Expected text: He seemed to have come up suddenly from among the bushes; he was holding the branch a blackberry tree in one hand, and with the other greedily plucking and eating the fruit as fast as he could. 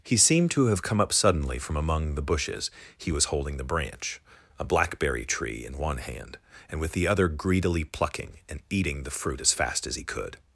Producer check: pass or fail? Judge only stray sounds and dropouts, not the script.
pass